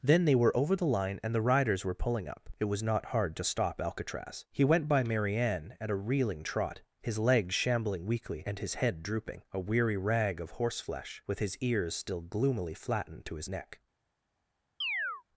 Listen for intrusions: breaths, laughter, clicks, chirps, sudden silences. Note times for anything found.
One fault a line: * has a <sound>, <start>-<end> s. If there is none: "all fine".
* has a chirp, 14.8-15.2 s